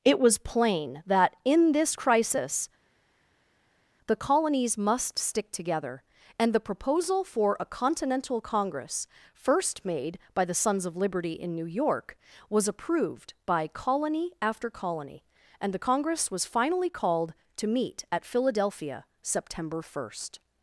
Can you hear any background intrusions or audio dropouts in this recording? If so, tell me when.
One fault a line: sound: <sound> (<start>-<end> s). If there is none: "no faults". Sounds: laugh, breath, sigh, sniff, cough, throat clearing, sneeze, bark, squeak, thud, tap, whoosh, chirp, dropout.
no faults